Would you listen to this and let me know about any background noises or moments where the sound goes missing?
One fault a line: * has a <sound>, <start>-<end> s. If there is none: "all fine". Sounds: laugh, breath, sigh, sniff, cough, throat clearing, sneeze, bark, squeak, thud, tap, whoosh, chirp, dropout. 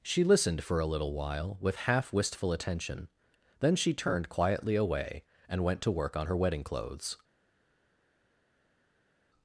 all fine